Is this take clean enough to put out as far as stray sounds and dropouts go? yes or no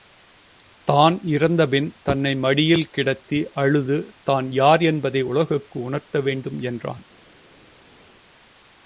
yes